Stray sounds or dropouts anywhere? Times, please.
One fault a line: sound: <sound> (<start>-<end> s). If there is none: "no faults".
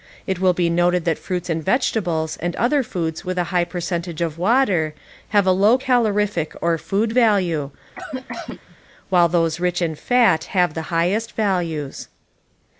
sound: cough (8.0-8.8 s)